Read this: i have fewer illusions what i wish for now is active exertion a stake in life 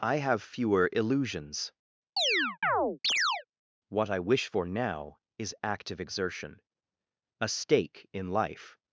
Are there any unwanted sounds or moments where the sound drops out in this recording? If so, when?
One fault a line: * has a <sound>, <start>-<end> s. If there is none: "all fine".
* has a chirp, 2.2-3.4 s